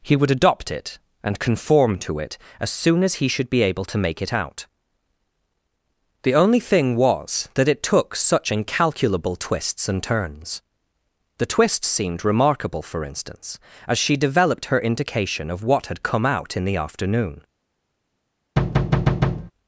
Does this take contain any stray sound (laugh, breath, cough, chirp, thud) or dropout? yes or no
yes